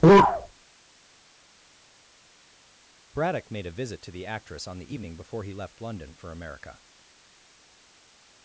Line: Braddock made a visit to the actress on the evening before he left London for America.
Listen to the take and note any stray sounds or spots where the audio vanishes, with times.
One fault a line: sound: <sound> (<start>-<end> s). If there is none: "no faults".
no faults